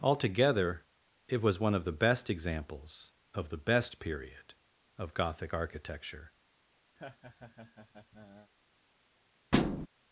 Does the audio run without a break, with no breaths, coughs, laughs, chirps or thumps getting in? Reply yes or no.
no